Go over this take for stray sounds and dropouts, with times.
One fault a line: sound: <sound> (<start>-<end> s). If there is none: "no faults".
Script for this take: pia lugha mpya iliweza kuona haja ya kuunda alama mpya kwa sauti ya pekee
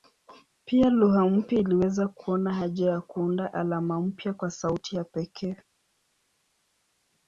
no faults